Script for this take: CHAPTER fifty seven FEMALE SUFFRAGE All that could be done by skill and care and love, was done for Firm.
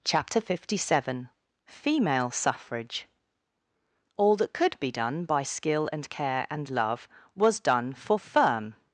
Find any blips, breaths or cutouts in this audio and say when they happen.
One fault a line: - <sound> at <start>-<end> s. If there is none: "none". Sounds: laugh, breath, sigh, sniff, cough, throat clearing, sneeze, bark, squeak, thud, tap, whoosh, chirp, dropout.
none